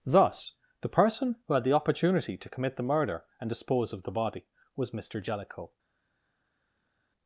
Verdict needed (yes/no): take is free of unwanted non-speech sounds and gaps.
yes